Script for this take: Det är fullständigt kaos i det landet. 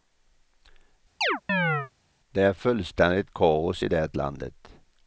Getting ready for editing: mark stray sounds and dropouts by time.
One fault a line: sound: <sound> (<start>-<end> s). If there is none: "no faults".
sound: chirp (1.2-1.9 s)